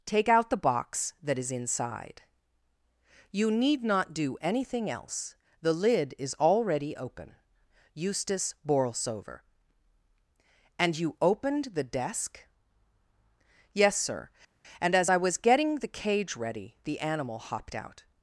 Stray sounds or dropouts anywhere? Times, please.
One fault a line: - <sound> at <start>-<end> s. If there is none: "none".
none